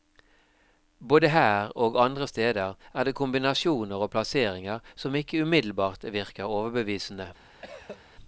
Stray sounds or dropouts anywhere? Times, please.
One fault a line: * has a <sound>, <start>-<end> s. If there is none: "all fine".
* has a cough, 7.6-8.0 s